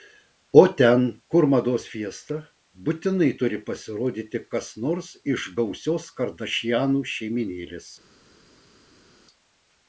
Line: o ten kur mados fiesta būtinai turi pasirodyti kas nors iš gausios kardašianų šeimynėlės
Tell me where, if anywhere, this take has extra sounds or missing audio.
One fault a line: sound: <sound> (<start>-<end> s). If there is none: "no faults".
no faults